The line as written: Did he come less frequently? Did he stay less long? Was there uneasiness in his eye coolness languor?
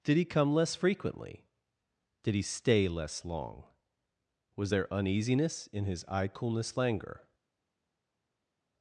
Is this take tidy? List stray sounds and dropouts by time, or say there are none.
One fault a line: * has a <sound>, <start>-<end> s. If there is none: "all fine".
all fine